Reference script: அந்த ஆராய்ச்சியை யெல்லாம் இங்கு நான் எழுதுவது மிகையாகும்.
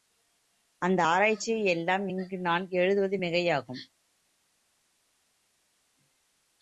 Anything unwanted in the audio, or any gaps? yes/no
no